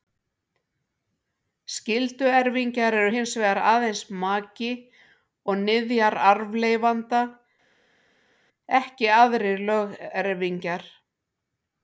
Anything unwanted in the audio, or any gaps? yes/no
no